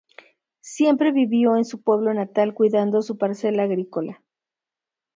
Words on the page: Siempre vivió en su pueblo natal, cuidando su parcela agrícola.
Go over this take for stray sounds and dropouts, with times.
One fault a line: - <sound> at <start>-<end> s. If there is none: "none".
none